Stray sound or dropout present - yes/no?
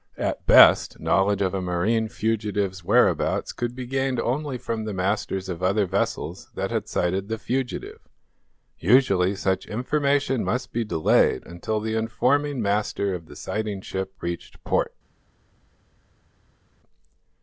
no